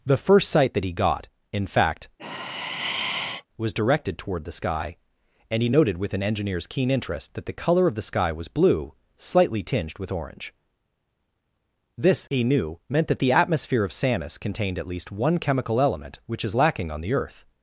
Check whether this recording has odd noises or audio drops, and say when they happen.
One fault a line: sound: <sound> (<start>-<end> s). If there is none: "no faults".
sound: sigh (2.2-3.5 s)